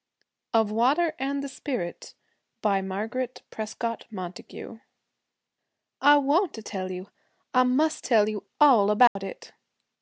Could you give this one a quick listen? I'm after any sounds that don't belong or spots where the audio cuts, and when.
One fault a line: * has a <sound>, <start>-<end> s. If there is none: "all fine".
* has a dropout, 9.1-9.2 s